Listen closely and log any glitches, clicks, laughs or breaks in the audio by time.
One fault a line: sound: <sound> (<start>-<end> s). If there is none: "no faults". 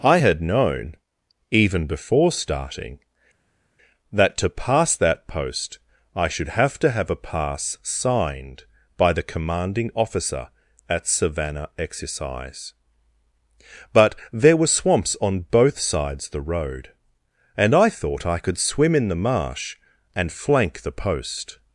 no faults